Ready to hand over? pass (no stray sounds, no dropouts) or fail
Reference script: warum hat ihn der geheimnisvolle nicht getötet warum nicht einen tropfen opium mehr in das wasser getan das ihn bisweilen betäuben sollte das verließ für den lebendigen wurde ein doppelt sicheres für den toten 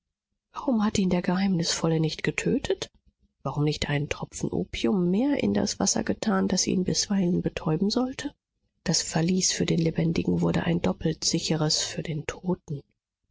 pass